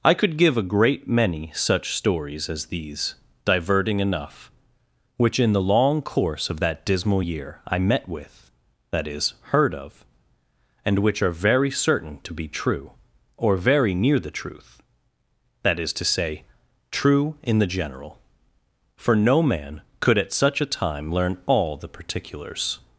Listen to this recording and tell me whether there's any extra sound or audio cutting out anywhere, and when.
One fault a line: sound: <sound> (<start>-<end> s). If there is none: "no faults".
no faults